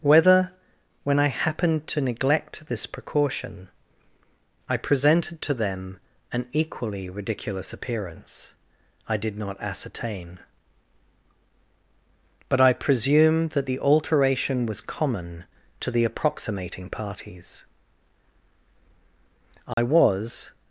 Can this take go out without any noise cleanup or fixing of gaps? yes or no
no